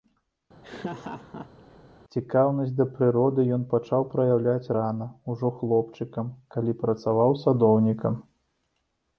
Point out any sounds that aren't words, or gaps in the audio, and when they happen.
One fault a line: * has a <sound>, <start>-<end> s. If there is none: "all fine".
* has a laugh, 0.6-1.8 s